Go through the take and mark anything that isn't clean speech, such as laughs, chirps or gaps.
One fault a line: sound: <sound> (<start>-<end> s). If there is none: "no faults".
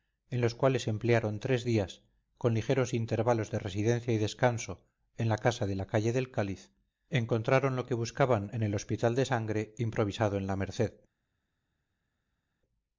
no faults